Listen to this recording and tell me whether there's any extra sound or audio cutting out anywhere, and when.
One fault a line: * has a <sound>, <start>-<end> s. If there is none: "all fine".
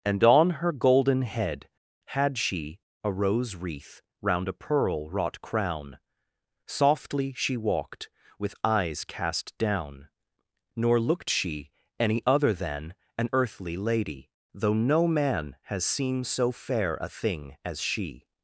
all fine